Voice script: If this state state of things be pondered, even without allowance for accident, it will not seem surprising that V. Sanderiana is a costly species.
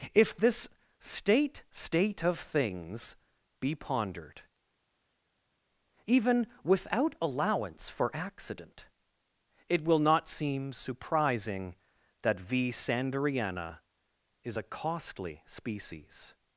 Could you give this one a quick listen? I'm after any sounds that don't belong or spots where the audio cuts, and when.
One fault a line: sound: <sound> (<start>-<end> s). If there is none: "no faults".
no faults